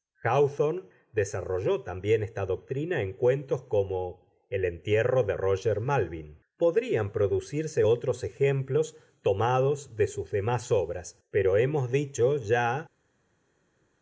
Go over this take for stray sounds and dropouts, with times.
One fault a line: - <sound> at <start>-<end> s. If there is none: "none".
none